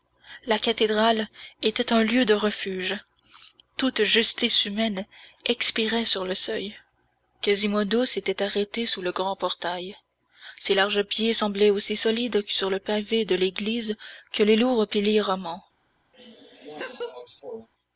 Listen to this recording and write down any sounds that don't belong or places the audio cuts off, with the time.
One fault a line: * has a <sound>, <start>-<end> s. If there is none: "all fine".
* has a laugh, 16.1-17.7 s